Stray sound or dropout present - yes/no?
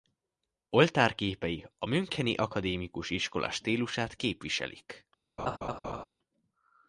yes